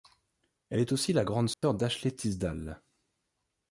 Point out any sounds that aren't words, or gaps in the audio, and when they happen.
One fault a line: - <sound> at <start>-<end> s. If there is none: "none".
- dropout at 1.5-1.6 s